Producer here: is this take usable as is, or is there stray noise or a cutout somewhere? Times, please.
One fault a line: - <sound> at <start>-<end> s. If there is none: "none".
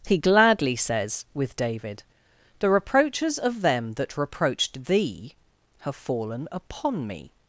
none